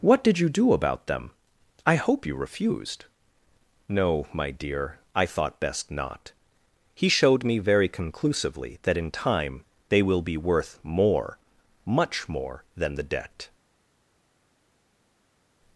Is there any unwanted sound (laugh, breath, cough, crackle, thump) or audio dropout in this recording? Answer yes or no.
no